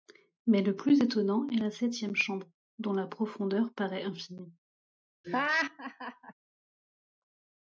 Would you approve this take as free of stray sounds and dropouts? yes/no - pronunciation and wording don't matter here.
no